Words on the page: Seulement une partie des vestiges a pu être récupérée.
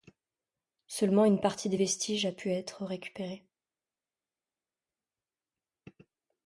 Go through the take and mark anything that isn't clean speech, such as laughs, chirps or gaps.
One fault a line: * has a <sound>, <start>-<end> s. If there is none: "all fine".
all fine